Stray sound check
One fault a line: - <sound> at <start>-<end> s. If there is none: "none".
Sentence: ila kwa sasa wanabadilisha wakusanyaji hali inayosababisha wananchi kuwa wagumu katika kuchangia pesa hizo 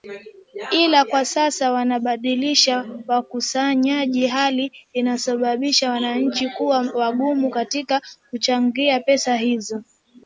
none